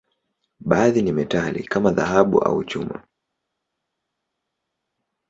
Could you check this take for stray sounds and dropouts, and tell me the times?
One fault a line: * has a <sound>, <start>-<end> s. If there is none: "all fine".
all fine